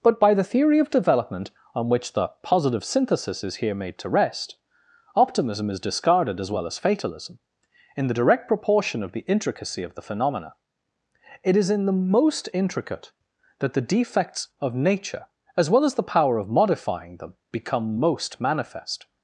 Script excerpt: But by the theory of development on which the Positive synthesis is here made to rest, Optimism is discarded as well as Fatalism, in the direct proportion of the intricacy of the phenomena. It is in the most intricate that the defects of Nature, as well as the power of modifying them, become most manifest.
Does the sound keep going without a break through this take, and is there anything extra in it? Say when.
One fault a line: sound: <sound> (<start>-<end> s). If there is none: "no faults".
no faults